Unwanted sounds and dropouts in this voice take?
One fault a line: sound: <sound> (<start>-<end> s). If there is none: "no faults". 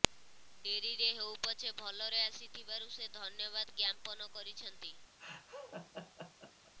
sound: laugh (5.2-6.7 s)